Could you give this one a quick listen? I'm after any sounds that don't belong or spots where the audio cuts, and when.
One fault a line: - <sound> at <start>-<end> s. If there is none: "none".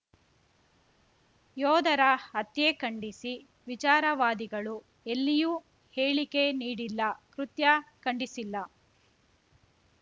none